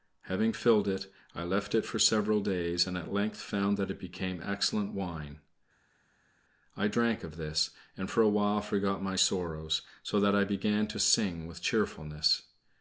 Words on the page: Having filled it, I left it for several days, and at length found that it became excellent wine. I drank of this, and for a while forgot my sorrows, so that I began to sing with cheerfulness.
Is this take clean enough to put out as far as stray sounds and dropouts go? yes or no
yes